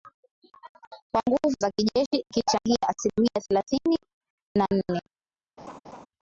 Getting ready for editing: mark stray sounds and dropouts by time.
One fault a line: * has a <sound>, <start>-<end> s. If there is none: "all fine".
* has a laugh, 5.6-6.1 s